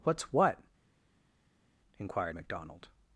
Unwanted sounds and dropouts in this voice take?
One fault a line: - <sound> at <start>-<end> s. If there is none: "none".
none